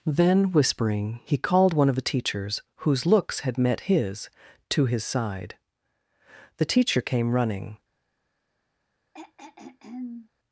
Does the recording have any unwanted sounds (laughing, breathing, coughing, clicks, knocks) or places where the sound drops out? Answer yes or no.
yes